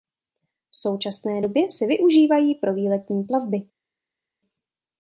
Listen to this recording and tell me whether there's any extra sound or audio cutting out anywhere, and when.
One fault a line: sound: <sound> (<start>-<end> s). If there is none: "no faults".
no faults